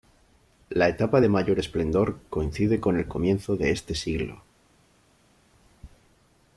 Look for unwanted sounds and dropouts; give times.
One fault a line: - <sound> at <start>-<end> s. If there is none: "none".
none